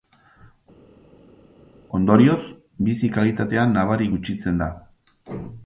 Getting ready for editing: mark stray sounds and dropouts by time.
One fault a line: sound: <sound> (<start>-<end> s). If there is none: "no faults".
no faults